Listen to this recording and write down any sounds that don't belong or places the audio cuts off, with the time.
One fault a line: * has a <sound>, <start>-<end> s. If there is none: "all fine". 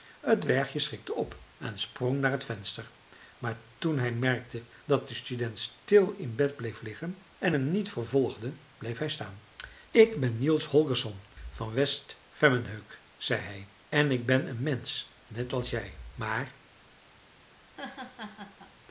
* has a laugh, 17.6-18.7 s